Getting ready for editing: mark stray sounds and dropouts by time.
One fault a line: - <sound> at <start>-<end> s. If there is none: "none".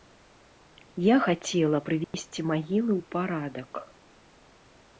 - dropout at 2.0-2.1 s